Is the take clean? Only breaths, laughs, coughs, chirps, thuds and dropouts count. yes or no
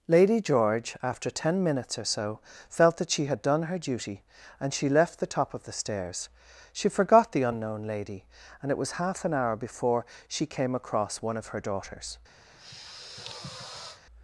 no